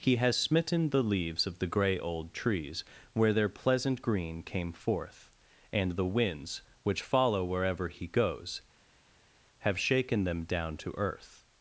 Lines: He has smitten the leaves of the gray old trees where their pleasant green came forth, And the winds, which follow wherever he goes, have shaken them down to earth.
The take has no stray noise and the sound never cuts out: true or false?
true